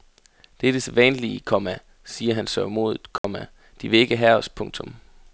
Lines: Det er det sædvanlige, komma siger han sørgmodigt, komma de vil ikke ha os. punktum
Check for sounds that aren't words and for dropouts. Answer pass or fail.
fail